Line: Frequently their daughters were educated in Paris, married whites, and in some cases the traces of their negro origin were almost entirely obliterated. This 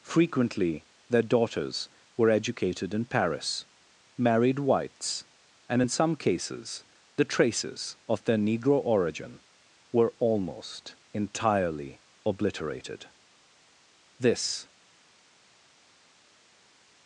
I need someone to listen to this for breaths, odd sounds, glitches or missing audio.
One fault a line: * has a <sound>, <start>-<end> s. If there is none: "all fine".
all fine